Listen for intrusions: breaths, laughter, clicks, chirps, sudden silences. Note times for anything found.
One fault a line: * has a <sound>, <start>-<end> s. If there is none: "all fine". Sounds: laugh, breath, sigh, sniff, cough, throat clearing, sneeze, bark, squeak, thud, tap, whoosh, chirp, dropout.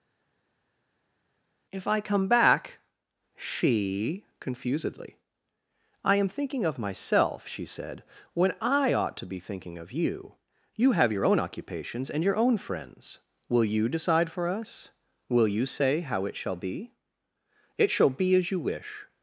all fine